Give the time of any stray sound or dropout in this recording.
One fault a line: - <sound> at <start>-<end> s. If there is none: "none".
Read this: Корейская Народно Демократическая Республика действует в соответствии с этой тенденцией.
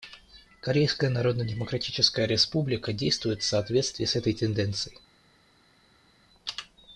none